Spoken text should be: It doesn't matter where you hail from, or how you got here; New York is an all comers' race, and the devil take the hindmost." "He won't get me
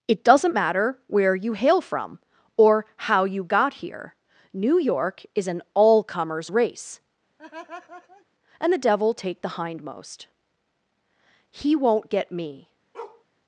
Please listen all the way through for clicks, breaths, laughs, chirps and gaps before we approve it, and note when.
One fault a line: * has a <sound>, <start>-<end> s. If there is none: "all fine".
* has a laugh, 7.4-8.3 s
* has a bark, 12.9-13.2 s